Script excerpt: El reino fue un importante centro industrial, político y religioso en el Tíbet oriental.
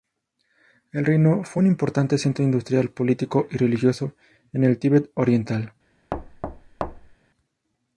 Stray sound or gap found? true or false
true